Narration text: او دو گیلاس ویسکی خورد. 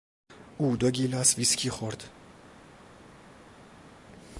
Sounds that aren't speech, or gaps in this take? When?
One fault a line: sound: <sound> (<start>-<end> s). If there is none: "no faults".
no faults